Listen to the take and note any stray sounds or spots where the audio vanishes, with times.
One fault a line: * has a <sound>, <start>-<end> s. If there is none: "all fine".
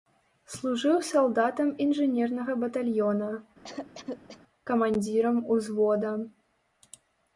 * has a cough, 3.6-4.4 s